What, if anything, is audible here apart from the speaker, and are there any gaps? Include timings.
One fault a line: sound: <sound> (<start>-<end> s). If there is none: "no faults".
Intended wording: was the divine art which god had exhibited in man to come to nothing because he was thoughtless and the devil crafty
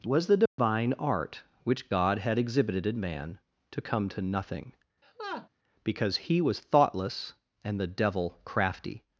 sound: dropout (0.5-0.6 s)
sound: laugh (5.0-5.5 s)